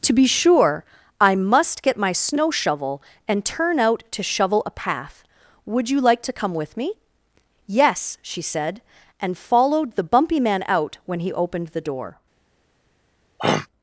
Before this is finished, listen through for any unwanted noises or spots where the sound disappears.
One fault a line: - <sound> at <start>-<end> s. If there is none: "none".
- throat clearing at 13.4-13.7 s